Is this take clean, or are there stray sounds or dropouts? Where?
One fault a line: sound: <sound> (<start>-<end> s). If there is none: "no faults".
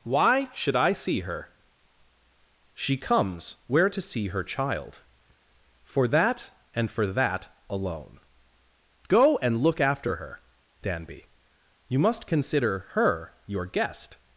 no faults